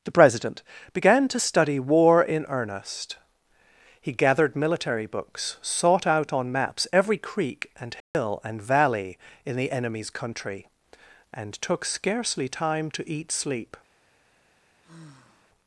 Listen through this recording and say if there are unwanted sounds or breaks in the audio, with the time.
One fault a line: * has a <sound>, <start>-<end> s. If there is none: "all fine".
* has a dropout, 8.0-8.1 s
* has a sigh, 14.8-15.5 s